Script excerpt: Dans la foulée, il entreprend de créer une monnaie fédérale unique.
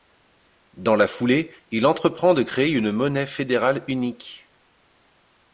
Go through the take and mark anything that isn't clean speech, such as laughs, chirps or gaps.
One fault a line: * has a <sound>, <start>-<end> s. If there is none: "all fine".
all fine